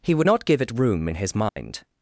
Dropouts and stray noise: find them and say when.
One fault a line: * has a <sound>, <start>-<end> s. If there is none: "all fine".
* has a dropout, 1.5-1.6 s